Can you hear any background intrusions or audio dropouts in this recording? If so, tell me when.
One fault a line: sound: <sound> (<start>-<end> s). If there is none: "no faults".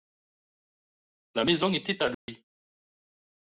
sound: dropout (2.1-2.3 s)